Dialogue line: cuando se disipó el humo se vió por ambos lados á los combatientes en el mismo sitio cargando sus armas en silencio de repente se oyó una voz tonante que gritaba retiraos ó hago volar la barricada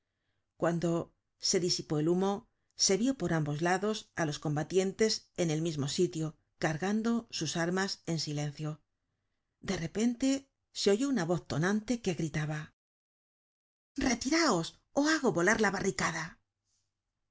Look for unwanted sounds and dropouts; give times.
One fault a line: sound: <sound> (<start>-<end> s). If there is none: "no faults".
no faults